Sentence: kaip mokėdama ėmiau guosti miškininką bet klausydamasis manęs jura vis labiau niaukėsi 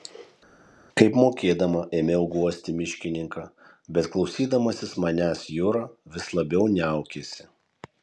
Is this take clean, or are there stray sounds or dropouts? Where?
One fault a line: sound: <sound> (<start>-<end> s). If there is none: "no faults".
no faults